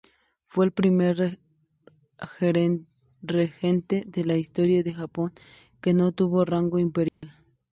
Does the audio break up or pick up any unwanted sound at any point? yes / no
yes